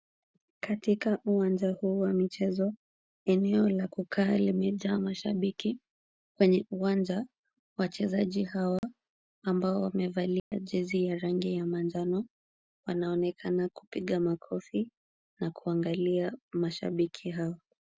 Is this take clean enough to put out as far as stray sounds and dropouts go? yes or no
no